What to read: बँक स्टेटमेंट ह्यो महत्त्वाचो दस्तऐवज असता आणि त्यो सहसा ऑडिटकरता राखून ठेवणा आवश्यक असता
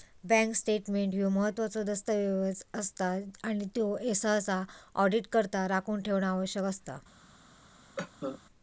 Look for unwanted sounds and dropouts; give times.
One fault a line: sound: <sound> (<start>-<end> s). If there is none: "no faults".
sound: cough (8.0-8.4 s)